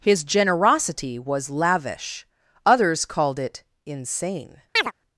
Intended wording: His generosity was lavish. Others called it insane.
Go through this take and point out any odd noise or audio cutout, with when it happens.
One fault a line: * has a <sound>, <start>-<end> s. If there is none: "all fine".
* has a chirp, 4.8-4.9 s